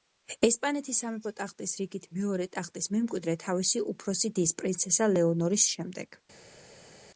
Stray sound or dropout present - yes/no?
no